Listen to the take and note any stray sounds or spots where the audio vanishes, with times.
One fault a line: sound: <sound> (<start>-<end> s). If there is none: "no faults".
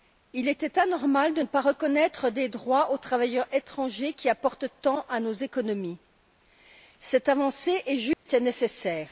sound: dropout (8.1-8.3 s)